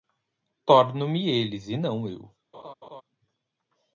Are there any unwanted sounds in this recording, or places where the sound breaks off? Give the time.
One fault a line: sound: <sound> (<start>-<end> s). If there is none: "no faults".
sound: laugh (2.5-3.0 s)